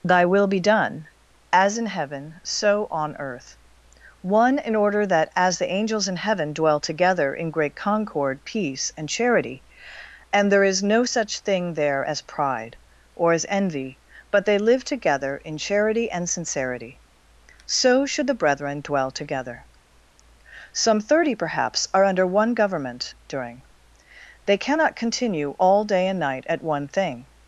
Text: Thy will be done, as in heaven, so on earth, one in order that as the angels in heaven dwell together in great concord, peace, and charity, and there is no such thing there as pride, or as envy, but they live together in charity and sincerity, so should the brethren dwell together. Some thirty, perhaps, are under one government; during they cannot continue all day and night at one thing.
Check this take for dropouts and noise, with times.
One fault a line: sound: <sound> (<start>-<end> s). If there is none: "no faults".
no faults